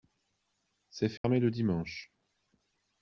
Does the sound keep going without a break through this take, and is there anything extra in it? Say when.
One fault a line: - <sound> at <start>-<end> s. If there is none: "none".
- dropout at 1.2-1.2 s